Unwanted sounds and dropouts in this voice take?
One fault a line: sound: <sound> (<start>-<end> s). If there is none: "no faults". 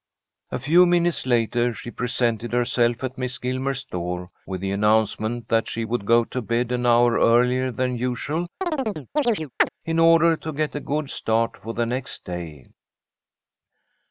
sound: chirp (8.6-9.7 s)